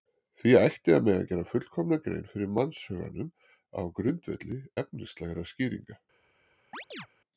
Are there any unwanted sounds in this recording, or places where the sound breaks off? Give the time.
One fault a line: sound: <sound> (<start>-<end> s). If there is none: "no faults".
sound: chirp (6.7-7.1 s)